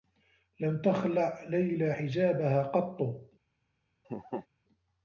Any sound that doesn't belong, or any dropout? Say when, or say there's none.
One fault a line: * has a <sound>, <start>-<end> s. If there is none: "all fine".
* has a laugh, 4.0-4.5 s